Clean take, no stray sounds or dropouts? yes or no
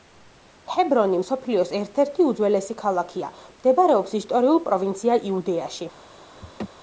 no